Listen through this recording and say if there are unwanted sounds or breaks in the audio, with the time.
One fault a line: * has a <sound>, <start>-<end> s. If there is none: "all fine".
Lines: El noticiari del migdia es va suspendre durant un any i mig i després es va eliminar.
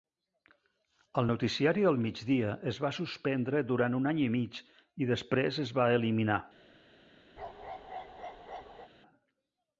* has a bark, 7.4-8.9 s